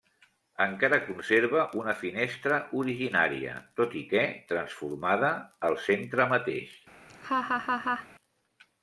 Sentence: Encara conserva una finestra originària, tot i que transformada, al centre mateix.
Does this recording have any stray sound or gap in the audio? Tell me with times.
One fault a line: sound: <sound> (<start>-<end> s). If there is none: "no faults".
sound: laugh (7.1-8.1 s)